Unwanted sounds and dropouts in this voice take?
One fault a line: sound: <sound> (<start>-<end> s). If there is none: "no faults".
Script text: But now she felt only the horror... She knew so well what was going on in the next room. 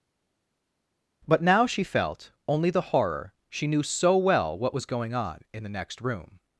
no faults